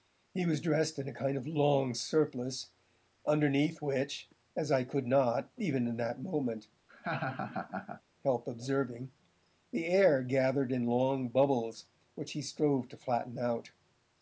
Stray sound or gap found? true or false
true